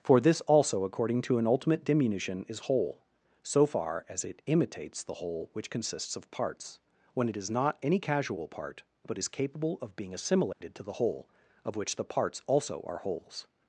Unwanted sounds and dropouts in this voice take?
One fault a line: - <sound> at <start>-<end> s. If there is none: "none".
- dropout at 10.5-10.6 s